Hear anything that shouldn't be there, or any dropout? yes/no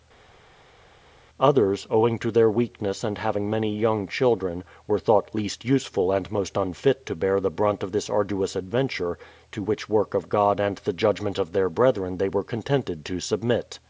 no